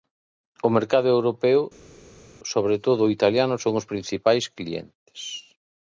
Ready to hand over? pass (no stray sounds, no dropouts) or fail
pass